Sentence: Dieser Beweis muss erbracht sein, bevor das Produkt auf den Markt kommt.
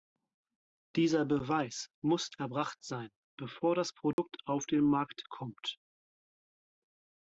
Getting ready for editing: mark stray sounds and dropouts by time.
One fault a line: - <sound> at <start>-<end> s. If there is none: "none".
- dropout at 4.1-4.2 s